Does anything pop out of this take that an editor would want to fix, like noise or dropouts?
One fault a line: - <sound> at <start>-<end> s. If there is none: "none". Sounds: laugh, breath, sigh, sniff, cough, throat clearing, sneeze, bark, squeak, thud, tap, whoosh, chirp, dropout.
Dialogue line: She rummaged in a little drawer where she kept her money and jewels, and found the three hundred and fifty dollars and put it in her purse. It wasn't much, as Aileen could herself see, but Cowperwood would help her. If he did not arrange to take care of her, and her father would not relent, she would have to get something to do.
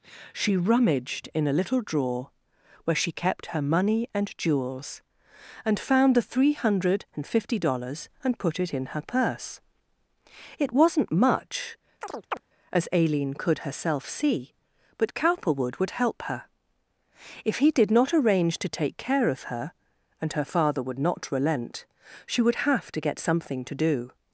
- chirp at 12.0-12.4 s